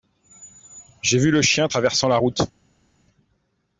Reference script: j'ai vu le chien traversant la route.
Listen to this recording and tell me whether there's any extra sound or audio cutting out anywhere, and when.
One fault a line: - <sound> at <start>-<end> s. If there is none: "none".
none